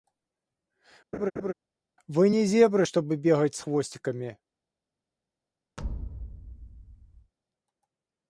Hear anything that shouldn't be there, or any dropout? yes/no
yes